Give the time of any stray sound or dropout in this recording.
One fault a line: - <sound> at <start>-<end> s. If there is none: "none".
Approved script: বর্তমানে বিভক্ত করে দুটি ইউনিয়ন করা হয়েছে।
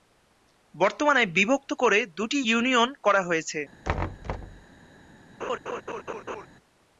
- thud at 3.8-4.6 s
- laugh at 5.4-6.5 s